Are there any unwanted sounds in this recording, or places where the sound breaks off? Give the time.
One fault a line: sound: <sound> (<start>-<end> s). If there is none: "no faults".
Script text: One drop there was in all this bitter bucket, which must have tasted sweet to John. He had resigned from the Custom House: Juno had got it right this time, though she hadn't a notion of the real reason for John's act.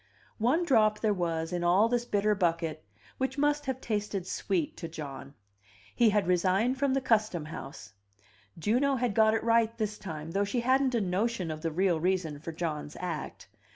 no faults